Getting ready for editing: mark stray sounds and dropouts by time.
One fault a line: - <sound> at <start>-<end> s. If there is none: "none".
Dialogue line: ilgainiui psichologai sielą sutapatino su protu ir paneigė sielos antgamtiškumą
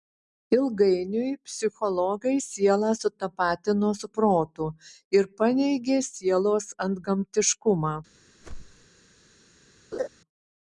- whoosh at 8.4-8.9 s
- laugh at 9.9-10.1 s